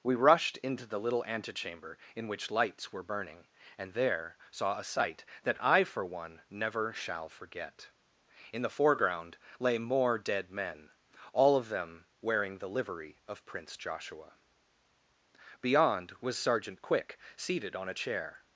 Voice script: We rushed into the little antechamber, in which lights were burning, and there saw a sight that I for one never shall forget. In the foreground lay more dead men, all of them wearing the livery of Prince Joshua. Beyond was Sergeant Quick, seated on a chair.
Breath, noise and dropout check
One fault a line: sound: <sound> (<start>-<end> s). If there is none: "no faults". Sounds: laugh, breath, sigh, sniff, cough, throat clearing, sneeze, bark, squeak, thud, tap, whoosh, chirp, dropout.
no faults